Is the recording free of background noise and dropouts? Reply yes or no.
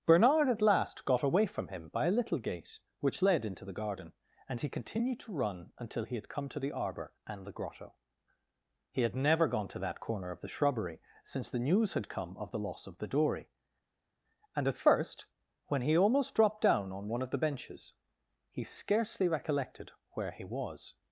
yes